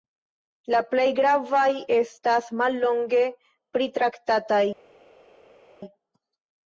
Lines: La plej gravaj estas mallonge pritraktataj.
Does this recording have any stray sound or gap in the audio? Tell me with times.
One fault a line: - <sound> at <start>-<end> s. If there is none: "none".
none